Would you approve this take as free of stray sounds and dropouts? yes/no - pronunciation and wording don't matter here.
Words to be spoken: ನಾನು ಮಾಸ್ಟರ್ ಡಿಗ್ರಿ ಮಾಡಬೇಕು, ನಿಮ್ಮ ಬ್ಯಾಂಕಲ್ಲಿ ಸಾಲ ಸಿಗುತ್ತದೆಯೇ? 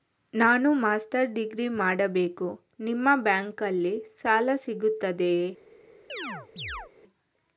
no